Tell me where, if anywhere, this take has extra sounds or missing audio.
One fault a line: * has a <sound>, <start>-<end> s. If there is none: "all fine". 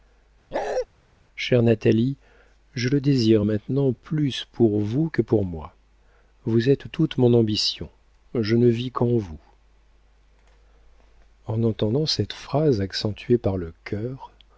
* has a bark, 0.5-0.9 s